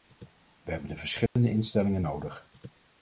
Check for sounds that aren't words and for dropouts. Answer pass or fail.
fail